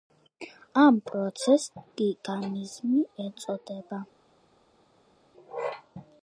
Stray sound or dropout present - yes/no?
no